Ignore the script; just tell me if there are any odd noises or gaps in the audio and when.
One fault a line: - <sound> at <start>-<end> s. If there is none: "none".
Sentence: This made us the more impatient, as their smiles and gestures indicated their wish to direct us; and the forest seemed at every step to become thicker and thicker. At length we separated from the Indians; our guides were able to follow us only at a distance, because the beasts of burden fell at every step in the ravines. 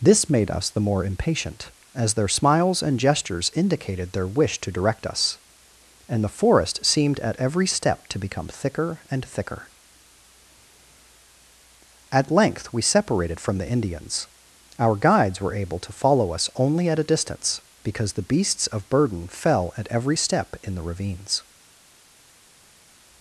none